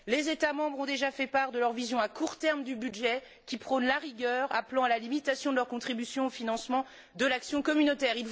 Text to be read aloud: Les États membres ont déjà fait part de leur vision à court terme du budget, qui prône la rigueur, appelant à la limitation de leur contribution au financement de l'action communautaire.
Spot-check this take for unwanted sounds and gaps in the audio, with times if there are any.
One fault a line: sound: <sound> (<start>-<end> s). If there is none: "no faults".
no faults